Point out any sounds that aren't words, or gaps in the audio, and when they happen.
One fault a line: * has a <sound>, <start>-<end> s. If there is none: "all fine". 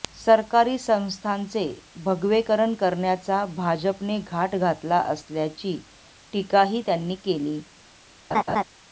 * has a laugh, 8.3-8.6 s